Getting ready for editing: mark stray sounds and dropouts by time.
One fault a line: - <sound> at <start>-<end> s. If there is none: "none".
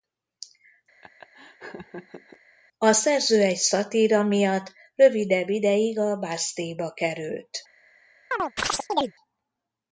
- laugh at 1.0-2.4 s
- chirp at 8.3-9.1 s